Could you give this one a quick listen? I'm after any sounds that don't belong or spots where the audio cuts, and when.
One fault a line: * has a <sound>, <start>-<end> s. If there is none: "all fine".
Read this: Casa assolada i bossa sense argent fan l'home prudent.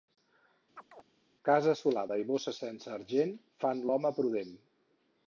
* has a chirp, 0.8-1.0 s